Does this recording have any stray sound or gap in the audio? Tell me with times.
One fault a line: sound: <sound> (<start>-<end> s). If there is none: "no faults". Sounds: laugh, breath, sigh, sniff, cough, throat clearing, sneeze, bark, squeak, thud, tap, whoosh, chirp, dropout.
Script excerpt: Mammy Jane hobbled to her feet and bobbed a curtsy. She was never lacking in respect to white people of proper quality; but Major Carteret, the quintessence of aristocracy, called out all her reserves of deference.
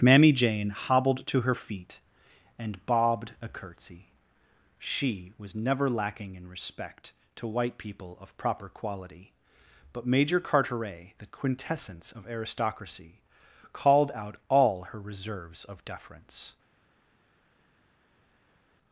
no faults